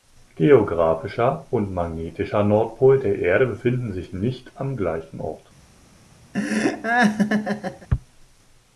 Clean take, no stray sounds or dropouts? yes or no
no